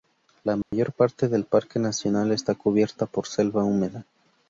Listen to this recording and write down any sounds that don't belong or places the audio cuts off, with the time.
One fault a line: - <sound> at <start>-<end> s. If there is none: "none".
- dropout at 0.6-0.7 s